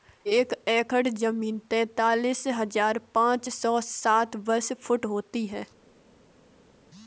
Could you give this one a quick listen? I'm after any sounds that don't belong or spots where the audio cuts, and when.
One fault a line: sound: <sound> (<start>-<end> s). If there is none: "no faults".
no faults